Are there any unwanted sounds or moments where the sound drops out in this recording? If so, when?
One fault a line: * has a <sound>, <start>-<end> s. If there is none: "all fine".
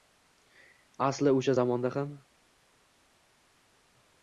all fine